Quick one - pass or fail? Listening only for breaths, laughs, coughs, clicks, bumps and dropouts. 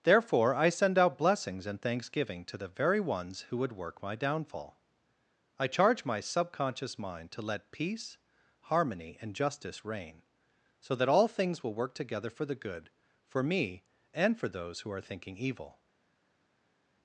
pass